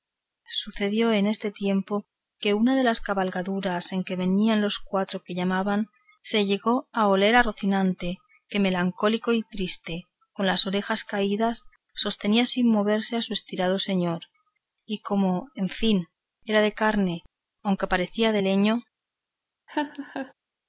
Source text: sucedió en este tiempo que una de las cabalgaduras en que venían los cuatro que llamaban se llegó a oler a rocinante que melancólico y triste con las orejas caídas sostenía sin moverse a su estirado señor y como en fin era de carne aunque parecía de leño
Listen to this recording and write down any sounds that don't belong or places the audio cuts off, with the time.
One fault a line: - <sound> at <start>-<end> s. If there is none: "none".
- laugh at 19.7-20.3 s